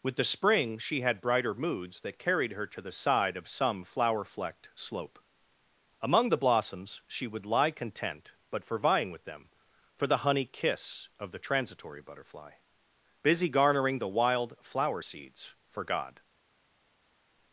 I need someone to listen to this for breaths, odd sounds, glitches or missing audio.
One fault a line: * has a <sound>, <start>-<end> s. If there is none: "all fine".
all fine